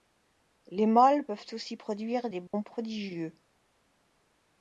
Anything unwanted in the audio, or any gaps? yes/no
yes